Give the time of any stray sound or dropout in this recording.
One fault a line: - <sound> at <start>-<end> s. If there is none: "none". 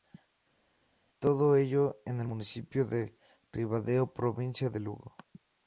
none